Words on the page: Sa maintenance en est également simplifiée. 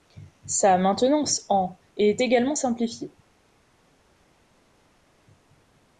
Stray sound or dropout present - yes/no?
no